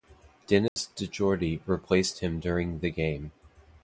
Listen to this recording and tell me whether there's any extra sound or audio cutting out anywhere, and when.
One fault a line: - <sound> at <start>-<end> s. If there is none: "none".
- dropout at 0.7-0.8 s